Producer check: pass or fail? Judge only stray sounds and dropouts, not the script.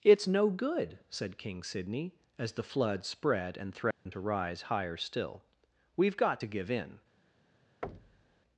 fail